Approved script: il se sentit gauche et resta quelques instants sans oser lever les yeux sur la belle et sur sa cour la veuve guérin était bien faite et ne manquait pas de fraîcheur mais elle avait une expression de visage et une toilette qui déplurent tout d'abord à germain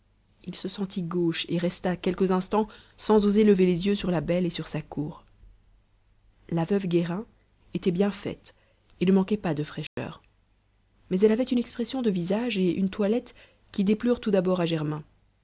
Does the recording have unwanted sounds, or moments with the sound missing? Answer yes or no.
yes